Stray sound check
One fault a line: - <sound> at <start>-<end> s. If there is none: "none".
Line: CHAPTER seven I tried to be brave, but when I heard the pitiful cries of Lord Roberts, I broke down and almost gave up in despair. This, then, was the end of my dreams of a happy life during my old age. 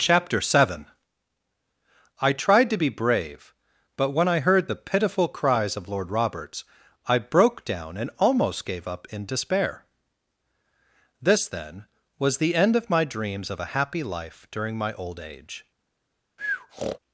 - breath at 16.4-17.0 s